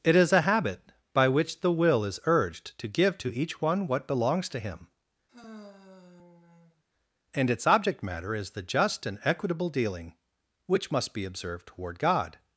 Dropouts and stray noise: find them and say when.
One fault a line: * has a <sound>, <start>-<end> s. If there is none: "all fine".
* has a sigh, 5.3-6.8 s